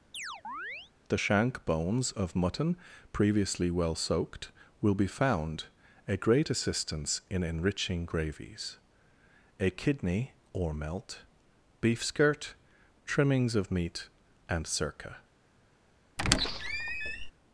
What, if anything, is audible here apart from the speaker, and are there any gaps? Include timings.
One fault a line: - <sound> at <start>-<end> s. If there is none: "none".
- chirp at 0.1-0.9 s
- squeak at 16.2-17.3 s